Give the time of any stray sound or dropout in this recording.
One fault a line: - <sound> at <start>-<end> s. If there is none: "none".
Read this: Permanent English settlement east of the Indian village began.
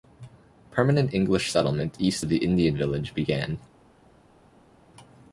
none